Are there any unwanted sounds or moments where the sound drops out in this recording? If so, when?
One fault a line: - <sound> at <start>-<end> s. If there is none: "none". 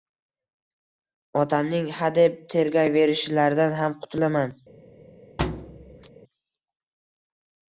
- thud at 5.4-6.1 s